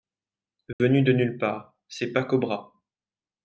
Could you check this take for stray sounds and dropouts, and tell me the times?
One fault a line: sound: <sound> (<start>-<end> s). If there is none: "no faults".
sound: dropout (0.7-0.8 s)